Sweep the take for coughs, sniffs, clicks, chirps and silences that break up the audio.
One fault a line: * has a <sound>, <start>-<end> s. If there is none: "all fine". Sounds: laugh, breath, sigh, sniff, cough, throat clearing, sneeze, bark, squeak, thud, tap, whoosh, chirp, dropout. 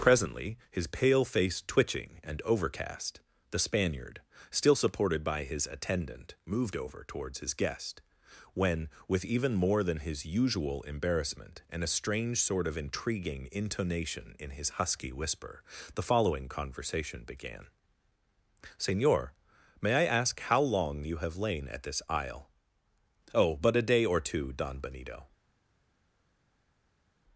all fine